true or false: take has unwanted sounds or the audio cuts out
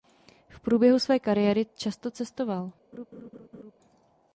true